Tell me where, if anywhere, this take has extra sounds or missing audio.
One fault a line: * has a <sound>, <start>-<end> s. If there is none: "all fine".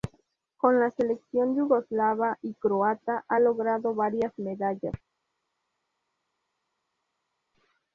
all fine